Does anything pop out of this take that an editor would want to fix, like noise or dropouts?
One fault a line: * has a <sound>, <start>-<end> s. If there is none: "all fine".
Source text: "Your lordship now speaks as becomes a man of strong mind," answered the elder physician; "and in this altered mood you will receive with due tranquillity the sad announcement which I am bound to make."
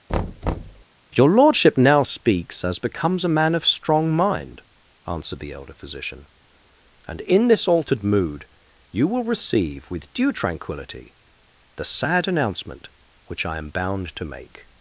* has a thud, 0.1-0.8 s